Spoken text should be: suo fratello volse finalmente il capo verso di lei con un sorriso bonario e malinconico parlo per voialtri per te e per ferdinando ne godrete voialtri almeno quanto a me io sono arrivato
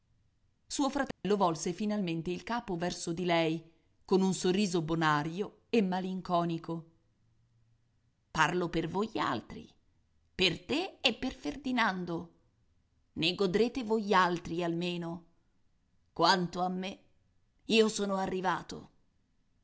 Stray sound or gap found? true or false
true